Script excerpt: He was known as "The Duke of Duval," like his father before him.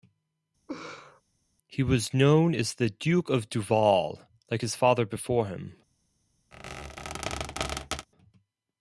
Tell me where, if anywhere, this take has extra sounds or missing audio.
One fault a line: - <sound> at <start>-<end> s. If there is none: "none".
- laugh at 0.7-1.2 s
- squeak at 6.5-8.1 s